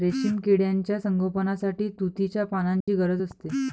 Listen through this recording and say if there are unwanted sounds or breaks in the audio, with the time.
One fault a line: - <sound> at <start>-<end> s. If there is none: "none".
- dropout at 2.8-2.9 s